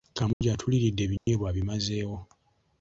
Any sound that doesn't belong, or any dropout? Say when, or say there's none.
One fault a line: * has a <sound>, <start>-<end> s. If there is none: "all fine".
* has a dropout, 0.3-0.4 s
* has a dropout, 1.2-1.3 s